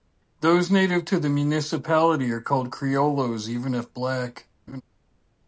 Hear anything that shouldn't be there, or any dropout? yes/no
yes